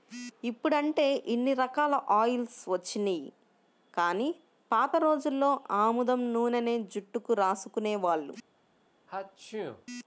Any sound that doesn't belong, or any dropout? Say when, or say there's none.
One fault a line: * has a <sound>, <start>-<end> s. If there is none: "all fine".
* has a sneeze, 9.1-9.9 s